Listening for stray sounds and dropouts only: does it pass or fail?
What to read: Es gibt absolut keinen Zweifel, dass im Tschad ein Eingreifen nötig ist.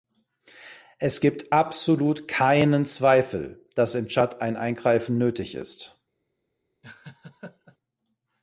fail